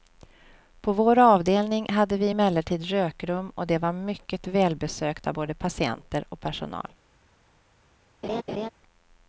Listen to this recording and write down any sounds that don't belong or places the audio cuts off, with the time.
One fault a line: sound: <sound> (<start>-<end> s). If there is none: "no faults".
sound: laugh (8.2-8.7 s)